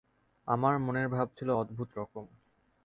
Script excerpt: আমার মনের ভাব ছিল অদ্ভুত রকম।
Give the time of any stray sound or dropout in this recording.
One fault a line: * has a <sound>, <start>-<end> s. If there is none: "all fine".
all fine